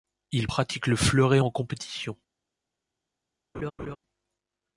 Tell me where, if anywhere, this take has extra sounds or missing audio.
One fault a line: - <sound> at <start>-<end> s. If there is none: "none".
- laugh at 3.5-4.0 s